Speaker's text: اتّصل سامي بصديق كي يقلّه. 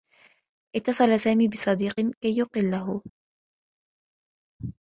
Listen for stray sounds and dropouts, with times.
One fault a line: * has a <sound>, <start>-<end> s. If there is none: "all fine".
all fine